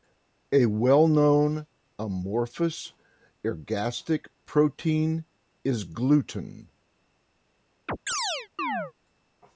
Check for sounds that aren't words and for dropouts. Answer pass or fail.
fail